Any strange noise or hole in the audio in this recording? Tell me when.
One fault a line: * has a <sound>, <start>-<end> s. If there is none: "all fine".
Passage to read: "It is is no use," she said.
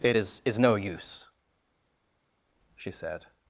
all fine